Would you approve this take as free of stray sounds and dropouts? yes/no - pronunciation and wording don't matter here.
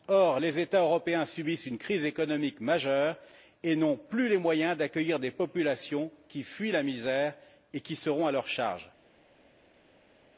yes